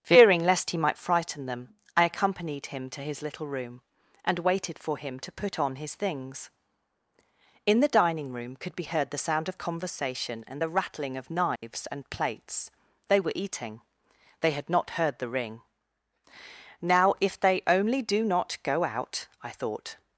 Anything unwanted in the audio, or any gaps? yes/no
yes